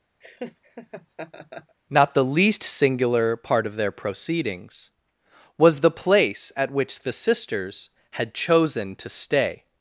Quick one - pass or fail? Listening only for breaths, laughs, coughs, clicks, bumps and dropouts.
fail